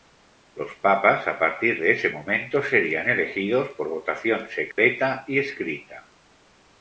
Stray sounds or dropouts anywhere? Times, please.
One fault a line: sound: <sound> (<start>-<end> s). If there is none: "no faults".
sound: dropout (4.7-4.8 s)